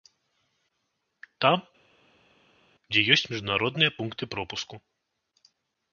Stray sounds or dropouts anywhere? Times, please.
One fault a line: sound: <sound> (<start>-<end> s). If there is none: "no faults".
no faults